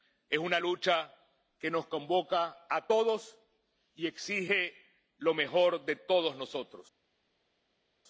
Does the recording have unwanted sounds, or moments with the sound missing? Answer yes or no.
no